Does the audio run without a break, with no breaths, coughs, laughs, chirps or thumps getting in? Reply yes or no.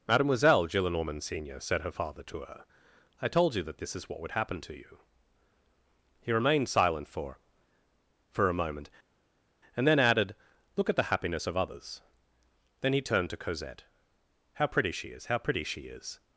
yes